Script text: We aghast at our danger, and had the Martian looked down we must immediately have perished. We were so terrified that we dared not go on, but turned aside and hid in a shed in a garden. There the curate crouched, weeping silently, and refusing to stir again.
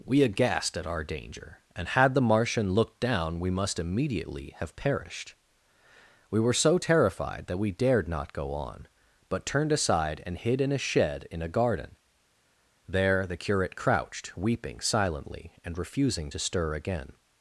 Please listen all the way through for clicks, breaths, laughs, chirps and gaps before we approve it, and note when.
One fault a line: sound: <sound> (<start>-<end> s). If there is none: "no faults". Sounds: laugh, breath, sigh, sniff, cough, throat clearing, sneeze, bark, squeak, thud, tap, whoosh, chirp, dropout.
no faults